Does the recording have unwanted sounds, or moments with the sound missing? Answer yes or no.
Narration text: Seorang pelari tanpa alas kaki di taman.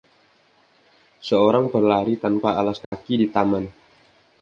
yes